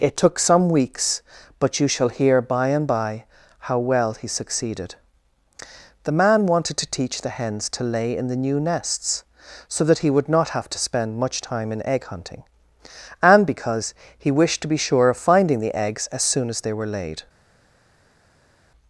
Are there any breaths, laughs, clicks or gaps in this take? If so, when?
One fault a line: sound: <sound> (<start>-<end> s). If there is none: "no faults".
no faults